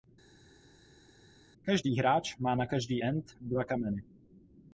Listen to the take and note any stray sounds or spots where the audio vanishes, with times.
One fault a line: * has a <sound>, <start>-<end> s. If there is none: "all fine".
all fine